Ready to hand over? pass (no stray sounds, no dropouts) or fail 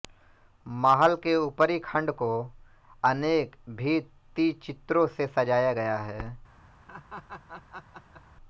fail